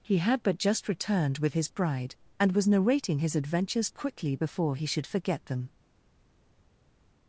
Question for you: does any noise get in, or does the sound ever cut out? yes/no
no